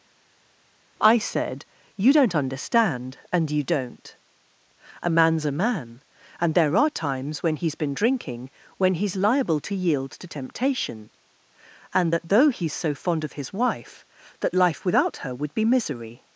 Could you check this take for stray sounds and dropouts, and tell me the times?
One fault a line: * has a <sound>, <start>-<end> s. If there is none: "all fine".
all fine